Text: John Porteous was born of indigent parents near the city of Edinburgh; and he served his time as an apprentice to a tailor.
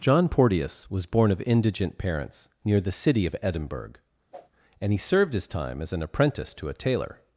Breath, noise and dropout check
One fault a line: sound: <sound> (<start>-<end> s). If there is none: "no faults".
sound: whoosh (4.3-4.5 s)